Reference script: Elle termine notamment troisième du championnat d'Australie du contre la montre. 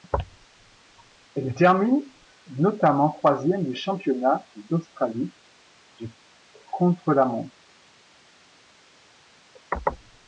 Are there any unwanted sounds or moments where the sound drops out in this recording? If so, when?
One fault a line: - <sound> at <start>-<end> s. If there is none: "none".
none